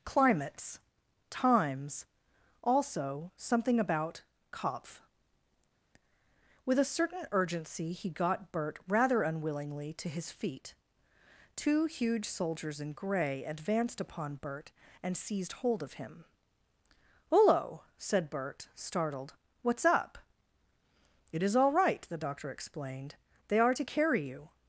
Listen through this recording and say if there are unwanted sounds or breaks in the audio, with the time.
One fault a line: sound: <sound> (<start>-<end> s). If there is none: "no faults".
no faults